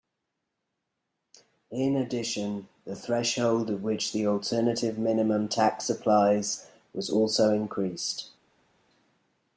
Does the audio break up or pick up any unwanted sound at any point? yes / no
no